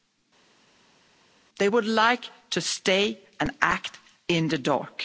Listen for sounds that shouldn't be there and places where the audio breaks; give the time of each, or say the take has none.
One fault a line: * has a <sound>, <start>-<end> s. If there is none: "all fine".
all fine